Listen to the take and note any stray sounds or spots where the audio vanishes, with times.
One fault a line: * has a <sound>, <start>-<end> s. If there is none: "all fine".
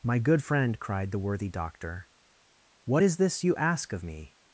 all fine